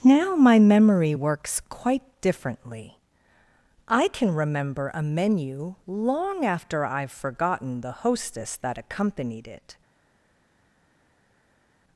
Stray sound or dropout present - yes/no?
no